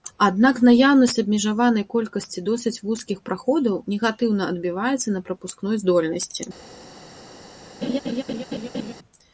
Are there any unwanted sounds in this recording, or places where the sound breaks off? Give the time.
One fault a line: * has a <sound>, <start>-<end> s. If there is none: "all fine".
* has a laugh, 7.8-8.9 s